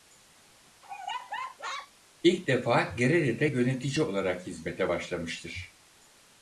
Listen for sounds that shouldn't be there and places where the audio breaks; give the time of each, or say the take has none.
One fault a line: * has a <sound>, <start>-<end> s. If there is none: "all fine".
* has a laugh, 0.8-1.9 s